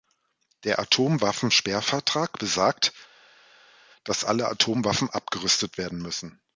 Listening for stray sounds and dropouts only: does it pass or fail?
pass